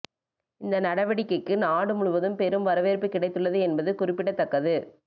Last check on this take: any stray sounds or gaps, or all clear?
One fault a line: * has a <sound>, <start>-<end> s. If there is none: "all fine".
all fine